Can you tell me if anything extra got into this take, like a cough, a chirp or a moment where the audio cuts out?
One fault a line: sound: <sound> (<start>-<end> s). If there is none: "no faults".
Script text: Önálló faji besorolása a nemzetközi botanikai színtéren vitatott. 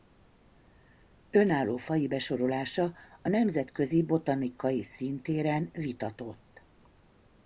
no faults